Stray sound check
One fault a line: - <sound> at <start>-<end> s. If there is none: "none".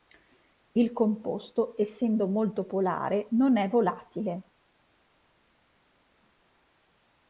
none